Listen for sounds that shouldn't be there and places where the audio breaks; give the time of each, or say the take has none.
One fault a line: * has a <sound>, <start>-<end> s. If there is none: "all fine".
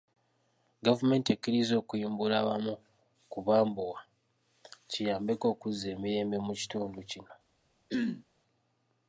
* has a throat clearing, 7.9-8.2 s